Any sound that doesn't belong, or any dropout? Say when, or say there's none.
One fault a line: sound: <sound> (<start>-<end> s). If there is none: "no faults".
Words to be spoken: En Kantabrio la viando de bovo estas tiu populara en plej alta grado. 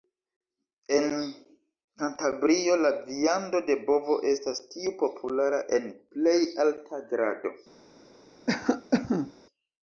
sound: cough (8.5-9.3 s)